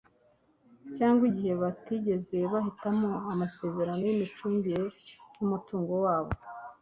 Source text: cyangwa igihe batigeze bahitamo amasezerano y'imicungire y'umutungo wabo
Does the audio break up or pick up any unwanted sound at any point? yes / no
no